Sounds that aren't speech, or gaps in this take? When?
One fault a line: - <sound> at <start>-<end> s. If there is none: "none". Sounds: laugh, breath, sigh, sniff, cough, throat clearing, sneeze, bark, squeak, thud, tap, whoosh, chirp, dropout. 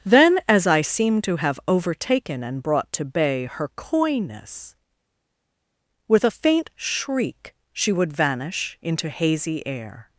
none